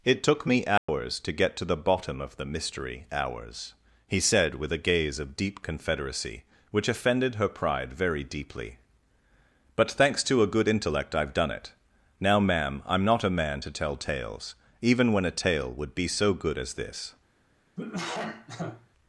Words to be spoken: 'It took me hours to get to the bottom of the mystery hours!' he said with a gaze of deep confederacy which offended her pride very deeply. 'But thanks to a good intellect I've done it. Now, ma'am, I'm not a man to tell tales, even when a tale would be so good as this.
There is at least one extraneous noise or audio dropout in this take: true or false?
true